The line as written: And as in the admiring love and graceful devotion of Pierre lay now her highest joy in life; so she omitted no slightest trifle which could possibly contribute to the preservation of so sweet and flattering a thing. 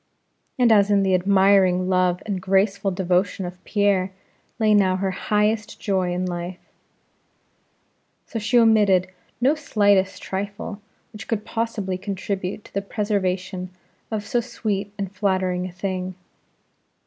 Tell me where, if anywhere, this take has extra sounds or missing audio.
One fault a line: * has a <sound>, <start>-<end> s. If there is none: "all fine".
all fine